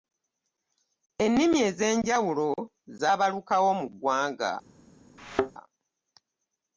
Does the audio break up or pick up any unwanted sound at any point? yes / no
yes